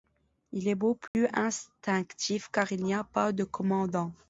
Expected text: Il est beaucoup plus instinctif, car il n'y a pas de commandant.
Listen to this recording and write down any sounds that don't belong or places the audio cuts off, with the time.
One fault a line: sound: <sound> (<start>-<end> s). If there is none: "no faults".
sound: dropout (1.1-1.1 s)